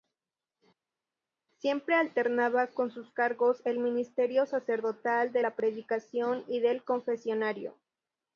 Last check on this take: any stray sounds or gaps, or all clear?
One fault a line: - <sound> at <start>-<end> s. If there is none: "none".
none